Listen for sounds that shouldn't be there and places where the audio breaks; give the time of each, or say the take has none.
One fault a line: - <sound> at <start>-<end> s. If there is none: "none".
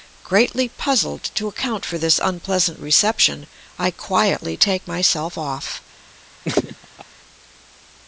- laugh at 6.4-7.0 s